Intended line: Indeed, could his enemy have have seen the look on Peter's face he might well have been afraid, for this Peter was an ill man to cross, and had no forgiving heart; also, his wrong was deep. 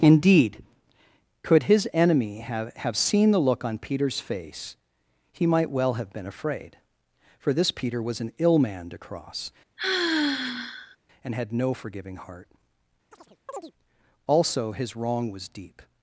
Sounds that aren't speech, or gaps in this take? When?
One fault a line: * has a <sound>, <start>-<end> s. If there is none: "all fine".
* has a sigh, 9.8-11.0 s
* has a chirp, 13.1-13.7 s